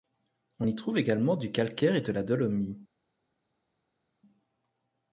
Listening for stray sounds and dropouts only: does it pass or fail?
pass